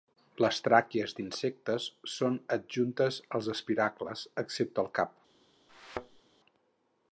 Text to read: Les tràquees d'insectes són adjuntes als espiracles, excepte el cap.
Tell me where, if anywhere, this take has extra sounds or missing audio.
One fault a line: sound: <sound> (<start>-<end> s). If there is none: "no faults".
sound: thud (5.7-6.2 s)